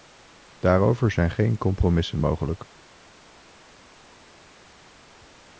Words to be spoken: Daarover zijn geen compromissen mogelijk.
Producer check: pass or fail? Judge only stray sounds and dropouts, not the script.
pass